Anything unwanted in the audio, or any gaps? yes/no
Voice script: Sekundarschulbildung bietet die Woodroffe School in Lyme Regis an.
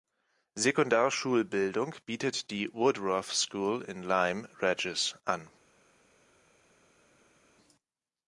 no